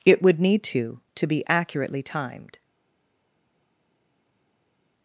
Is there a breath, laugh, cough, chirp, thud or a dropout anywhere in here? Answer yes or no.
no